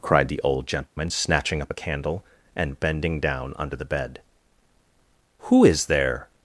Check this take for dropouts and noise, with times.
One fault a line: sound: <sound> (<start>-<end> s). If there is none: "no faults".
sound: dropout (0.9-1.0 s)